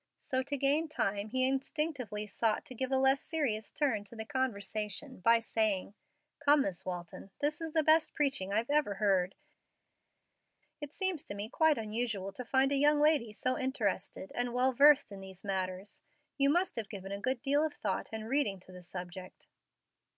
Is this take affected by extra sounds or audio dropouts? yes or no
no